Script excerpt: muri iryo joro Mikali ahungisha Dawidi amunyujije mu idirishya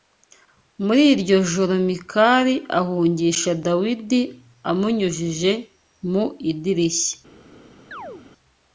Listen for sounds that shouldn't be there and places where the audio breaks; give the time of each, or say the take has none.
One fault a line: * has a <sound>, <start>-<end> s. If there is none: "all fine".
* has a chirp, 7.9-8.3 s